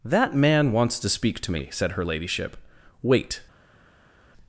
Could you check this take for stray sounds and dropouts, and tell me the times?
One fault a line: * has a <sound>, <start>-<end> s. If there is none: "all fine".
all fine